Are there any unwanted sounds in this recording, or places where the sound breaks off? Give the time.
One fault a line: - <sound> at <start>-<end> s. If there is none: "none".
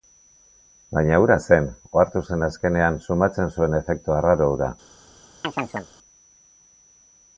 - chirp at 5.4-5.9 s